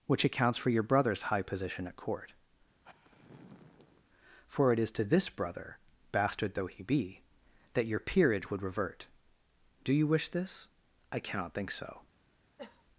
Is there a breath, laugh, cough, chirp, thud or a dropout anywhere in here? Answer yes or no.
yes